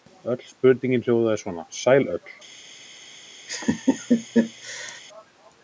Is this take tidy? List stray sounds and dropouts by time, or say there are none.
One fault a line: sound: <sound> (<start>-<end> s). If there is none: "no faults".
sound: laugh (3.5-5.0 s)